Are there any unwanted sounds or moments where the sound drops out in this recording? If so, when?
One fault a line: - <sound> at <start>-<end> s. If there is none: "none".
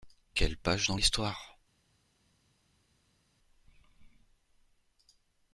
none